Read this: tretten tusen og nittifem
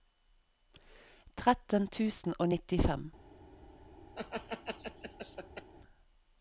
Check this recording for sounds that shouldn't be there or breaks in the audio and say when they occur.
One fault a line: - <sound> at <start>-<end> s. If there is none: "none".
- laugh at 4.1-5.7 s